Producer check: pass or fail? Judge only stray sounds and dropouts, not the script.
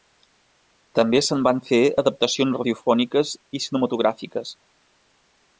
pass